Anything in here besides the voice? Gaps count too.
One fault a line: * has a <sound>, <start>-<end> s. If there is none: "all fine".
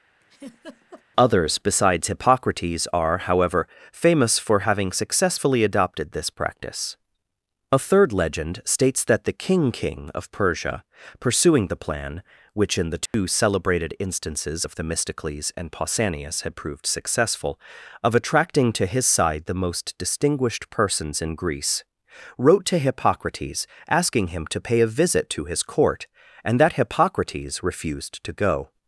* has a laugh, 0.2-1.0 s
* has a dropout, 13.1-13.1 s